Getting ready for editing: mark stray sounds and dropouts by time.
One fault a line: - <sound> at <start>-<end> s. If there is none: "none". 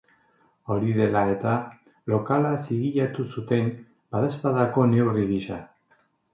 none